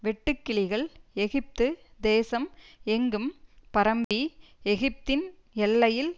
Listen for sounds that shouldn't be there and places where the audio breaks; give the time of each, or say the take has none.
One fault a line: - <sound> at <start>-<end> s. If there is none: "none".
- dropout at 4.0-4.1 s